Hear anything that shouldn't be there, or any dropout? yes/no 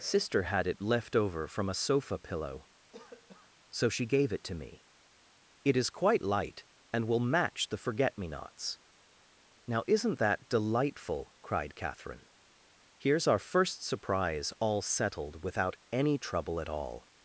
yes